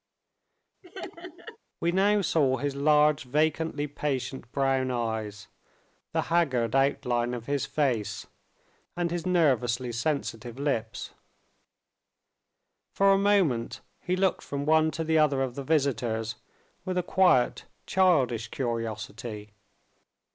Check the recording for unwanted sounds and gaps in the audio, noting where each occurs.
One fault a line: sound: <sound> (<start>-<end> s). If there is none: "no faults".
sound: laugh (0.8-1.6 s)